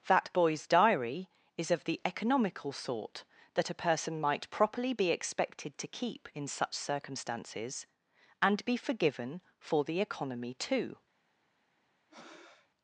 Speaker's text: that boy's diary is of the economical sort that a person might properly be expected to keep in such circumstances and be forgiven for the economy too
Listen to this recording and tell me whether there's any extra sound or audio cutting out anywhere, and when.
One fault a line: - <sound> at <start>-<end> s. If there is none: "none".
- breath at 12.1-12.7 s